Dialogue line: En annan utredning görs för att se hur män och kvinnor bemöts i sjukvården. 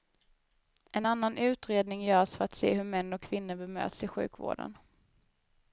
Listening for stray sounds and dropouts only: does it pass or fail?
pass